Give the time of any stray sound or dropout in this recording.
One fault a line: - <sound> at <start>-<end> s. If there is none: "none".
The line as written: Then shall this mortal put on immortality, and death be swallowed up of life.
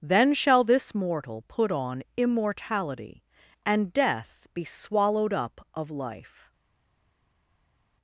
none